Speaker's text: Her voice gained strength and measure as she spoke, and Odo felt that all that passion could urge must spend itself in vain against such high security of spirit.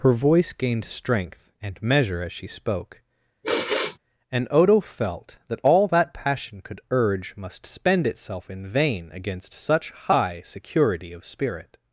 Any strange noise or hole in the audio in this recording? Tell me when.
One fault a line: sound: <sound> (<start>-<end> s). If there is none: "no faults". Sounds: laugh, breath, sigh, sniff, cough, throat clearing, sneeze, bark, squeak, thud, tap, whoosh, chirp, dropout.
sound: sigh (3.4-4.0 s)